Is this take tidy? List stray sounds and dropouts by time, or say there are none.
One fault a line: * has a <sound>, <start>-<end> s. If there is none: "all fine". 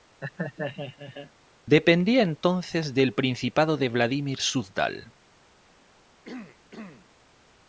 * has a laugh, 0.2-1.3 s
* has a throat clearing, 6.2-7.1 s